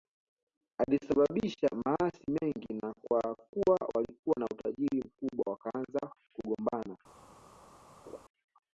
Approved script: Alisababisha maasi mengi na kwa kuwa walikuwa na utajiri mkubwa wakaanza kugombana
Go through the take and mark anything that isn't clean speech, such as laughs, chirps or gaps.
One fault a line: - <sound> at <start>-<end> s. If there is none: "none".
- laugh at 8.1-8.2 s